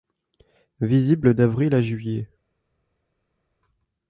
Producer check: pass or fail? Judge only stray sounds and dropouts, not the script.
pass